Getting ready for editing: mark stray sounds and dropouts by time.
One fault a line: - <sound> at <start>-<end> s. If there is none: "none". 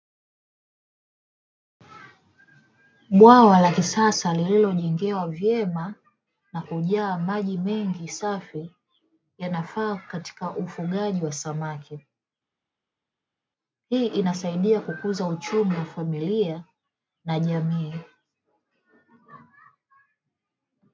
none